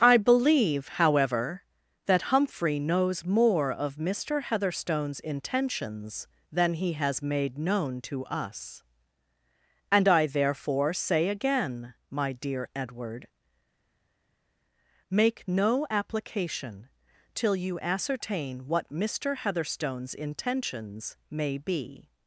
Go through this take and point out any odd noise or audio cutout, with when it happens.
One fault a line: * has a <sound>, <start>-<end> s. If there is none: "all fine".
all fine